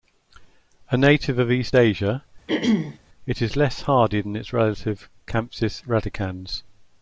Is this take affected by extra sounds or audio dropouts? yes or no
yes